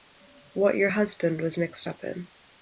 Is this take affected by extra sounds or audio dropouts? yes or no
no